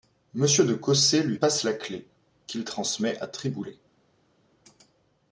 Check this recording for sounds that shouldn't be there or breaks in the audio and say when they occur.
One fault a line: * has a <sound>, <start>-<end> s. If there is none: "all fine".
all fine